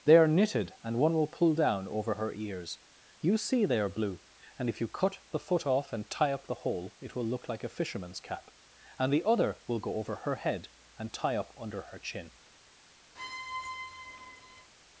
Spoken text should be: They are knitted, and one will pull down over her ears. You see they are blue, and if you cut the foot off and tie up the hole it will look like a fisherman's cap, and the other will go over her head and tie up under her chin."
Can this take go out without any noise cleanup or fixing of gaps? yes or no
no